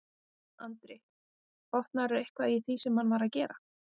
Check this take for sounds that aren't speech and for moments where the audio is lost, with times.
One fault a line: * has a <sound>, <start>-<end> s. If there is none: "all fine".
all fine